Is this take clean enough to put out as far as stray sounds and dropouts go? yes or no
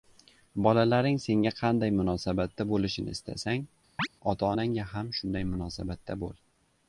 no